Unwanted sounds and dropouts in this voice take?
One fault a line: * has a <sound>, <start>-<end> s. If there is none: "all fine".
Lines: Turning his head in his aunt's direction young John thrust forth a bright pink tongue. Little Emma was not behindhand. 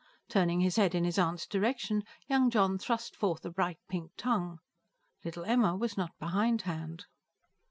all fine